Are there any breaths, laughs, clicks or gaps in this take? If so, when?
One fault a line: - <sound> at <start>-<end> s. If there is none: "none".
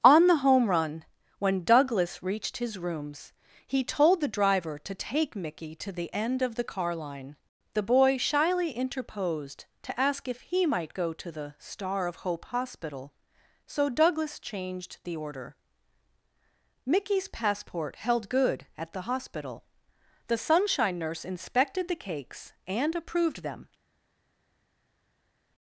none